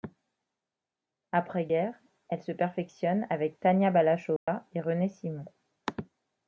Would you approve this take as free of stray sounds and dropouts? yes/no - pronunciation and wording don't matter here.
no